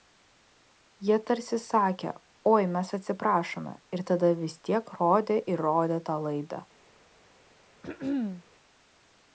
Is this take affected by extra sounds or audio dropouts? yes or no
yes